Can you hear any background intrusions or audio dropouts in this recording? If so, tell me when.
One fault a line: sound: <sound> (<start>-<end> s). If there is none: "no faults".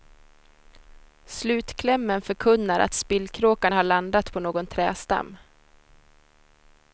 no faults